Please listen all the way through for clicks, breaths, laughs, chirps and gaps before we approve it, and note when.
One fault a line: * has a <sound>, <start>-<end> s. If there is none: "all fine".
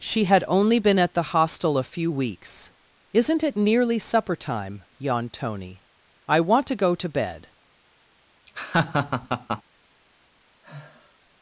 * has a laugh, 8.5-9.6 s
* has a sigh, 10.6-11.2 s